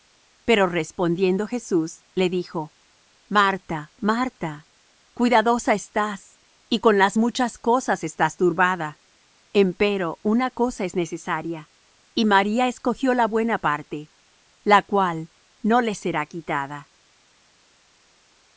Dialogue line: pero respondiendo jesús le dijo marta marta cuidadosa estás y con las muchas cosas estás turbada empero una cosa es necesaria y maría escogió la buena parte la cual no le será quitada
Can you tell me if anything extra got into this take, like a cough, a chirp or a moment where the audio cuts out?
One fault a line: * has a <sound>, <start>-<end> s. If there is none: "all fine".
all fine